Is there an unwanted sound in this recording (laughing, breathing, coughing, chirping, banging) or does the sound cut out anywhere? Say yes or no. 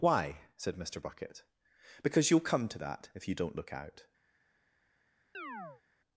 yes